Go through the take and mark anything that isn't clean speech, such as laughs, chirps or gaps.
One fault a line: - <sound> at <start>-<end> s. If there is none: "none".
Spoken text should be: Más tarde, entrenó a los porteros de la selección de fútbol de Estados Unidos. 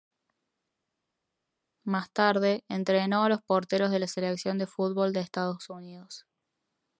none